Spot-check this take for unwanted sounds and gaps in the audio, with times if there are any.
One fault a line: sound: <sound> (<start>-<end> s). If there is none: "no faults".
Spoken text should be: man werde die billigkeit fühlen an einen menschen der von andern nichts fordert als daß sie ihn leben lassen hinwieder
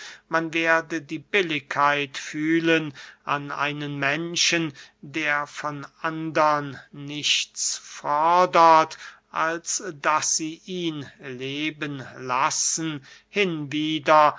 no faults